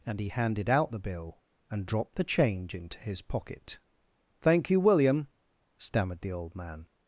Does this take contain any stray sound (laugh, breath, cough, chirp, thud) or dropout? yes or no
no